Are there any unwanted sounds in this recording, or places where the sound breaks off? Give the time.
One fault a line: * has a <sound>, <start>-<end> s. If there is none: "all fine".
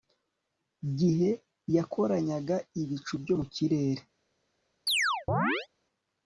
* has a chirp, 4.9-5.7 s